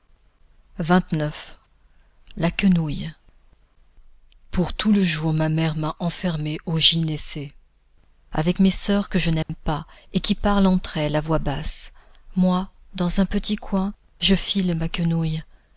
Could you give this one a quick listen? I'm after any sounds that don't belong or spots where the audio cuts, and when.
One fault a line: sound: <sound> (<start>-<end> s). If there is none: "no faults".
sound: dropout (9.4-9.5 s)